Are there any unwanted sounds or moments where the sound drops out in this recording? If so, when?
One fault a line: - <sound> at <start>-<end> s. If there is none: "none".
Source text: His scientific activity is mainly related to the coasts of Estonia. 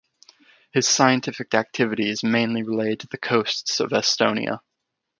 none